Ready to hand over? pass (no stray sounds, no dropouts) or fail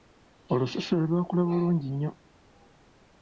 pass